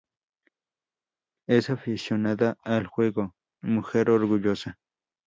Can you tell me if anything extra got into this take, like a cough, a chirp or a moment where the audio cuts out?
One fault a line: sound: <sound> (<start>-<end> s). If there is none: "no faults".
no faults